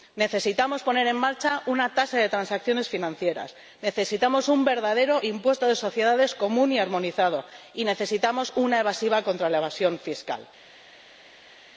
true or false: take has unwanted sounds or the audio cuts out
false